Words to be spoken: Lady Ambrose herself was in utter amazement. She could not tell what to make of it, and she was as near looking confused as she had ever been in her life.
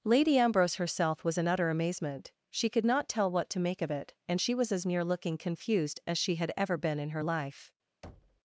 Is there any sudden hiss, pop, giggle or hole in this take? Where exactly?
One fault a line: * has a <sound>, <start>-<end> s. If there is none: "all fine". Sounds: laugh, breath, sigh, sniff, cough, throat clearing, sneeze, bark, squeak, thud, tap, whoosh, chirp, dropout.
* has a thud, 8.0-8.4 s